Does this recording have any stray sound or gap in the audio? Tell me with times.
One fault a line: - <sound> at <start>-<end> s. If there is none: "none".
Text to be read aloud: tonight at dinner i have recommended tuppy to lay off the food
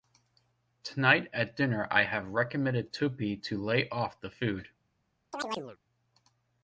- chirp at 5.3-5.8 s